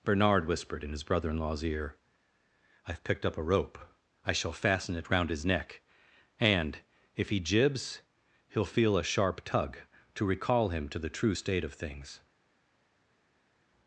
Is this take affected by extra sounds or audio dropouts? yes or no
no